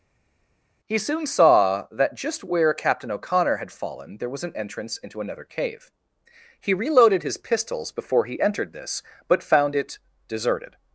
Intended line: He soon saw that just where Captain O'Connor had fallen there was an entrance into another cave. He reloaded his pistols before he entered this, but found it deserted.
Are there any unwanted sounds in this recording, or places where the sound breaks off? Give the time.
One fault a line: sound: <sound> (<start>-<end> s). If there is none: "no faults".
no faults